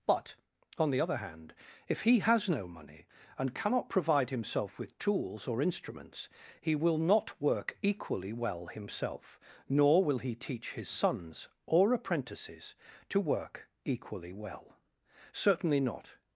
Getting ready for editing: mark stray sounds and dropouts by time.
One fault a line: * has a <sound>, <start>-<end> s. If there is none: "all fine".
all fine